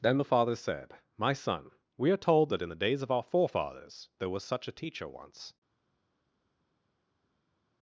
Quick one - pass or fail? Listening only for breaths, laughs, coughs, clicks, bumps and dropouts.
pass